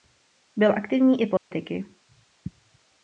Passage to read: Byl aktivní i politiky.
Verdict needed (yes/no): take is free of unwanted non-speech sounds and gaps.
no